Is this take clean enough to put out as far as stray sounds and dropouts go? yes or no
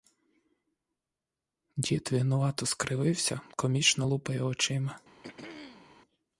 no